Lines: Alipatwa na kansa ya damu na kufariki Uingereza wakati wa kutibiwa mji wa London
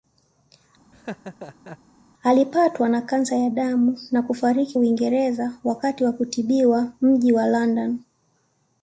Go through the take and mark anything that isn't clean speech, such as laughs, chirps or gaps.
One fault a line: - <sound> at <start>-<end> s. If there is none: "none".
- laugh at 0.9-1.8 s